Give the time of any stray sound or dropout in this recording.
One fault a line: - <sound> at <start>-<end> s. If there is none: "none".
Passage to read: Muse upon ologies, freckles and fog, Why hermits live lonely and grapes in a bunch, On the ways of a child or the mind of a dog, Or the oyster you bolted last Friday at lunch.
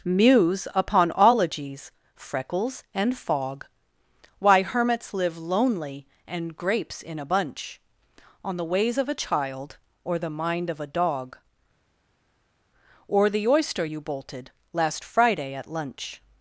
none